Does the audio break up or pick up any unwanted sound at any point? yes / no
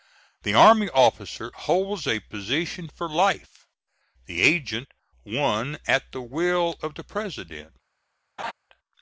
yes